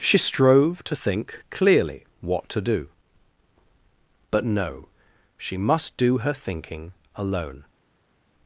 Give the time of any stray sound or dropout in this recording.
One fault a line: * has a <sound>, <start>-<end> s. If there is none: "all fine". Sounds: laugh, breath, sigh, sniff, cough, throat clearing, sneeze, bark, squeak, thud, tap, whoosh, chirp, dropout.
all fine